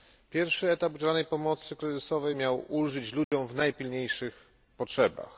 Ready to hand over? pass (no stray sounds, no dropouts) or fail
fail